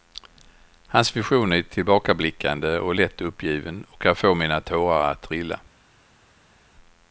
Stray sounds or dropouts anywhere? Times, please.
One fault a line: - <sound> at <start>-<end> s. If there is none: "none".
none